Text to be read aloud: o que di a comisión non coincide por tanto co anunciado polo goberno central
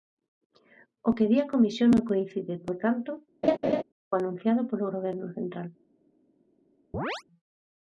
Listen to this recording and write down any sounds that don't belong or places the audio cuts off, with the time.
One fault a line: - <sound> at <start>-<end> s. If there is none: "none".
- laugh at 3.4-3.8 s
- chirp at 6.9-7.2 s